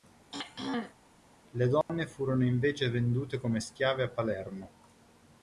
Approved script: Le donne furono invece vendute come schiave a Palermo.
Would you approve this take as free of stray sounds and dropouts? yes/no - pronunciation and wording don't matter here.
no